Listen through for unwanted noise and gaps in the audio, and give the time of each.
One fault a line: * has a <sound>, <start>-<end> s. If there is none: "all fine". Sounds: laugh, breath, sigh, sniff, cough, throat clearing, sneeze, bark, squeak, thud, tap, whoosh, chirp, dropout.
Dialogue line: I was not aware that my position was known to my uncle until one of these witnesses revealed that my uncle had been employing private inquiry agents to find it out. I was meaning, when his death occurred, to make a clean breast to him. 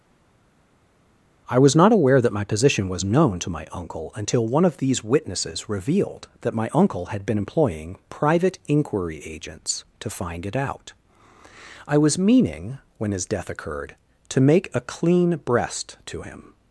all fine